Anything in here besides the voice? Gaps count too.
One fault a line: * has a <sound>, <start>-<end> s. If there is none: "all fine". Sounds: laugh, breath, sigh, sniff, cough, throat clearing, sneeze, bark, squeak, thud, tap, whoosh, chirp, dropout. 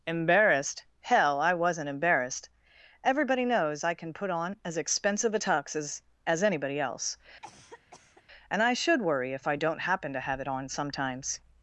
* has a cough, 7.4-8.2 s